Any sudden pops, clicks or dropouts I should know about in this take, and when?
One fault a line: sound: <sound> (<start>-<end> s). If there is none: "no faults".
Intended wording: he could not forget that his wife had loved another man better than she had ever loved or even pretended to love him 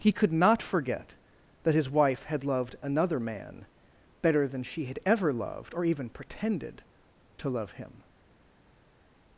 no faults